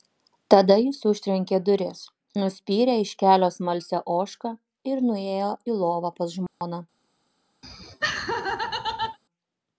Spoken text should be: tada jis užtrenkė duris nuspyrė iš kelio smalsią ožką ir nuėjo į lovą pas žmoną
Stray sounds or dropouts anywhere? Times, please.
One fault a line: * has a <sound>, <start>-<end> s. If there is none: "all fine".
* has a dropout, 6.5-6.6 s
* has a laugh, 7.6-9.2 s